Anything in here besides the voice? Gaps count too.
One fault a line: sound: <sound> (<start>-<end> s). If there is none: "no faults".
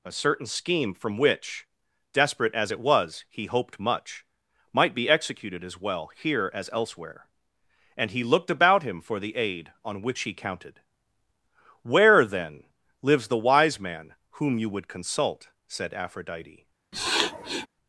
sound: sniff (16.9-17.7 s)